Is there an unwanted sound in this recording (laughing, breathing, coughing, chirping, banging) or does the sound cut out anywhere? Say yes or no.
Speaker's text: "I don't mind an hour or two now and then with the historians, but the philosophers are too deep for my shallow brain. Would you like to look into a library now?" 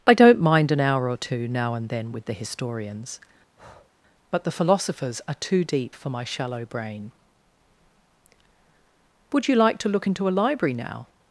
yes